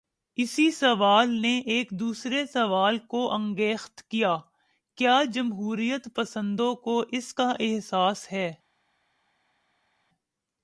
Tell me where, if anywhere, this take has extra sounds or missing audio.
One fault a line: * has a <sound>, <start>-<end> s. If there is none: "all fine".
all fine